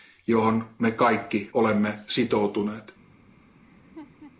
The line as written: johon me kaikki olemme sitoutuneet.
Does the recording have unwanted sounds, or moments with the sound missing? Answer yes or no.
yes